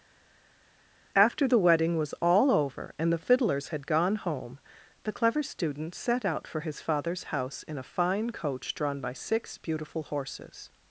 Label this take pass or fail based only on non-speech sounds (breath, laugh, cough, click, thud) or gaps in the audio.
pass